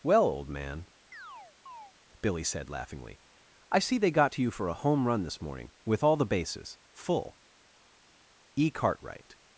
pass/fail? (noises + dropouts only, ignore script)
fail